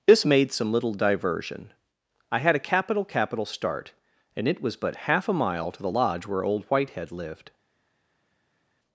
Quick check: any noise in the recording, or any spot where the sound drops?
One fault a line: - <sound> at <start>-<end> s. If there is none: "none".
none